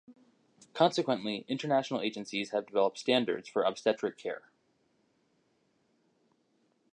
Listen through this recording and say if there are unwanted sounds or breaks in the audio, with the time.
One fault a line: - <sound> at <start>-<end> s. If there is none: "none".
none